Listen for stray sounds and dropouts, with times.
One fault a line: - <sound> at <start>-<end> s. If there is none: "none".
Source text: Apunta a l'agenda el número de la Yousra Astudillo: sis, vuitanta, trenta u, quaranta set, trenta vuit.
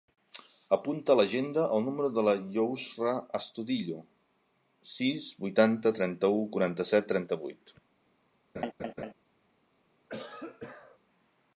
- laugh at 8.5-9.1 s
- cough at 10.1-11.0 s